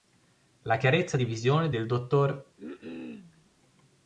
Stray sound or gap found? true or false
true